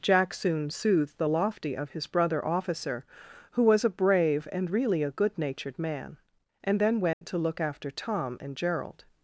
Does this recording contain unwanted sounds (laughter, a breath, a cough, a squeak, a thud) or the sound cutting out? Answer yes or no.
yes